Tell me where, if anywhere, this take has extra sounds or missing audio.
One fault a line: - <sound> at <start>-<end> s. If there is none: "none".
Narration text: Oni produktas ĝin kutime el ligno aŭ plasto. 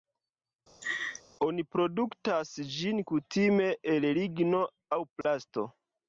- laugh at 0.8-1.2 s
- dropout at 5.2-5.2 s